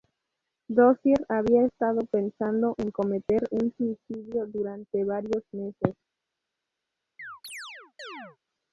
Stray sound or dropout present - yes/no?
yes